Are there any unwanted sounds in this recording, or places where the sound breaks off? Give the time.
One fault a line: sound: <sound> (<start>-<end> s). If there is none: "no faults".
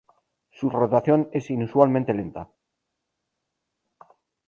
no faults